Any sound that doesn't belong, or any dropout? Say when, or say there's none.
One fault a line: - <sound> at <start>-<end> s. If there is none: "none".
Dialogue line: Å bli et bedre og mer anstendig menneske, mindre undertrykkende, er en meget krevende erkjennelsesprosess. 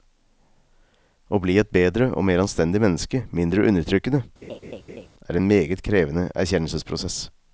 - laugh at 4.4-5.1 s